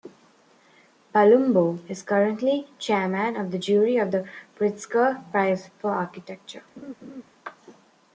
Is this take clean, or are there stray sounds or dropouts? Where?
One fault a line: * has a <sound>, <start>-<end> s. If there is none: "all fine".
* has a laugh, 6.8-7.2 s